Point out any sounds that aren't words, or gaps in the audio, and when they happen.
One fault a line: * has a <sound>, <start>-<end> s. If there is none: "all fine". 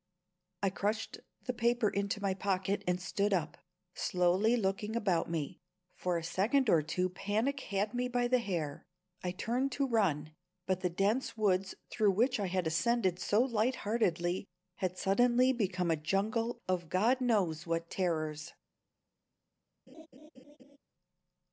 * has a laugh, 19.9-20.8 s